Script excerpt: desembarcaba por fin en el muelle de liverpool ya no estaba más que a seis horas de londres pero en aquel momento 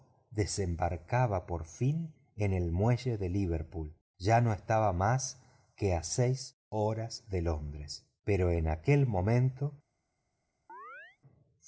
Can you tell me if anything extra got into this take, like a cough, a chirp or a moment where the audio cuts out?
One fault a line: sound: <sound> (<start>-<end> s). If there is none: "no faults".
sound: chirp (10.7-11.2 s)